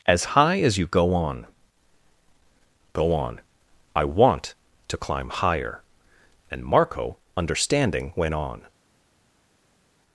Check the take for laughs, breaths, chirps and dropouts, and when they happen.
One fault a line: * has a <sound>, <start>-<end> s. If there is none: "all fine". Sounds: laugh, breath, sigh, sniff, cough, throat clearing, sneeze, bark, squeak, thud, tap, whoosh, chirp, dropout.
all fine